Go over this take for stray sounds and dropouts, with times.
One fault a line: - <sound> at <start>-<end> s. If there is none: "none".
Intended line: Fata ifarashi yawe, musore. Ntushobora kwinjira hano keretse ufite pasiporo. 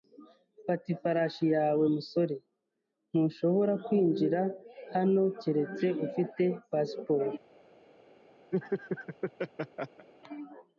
- laugh at 8.5-10.1 s